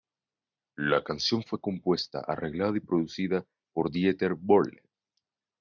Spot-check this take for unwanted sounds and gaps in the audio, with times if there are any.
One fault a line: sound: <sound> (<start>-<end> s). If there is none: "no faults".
no faults